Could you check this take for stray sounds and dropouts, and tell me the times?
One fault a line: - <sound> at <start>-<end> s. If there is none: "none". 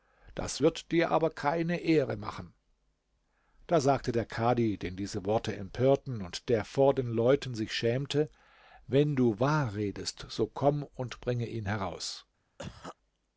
- cough at 12.6-13.0 s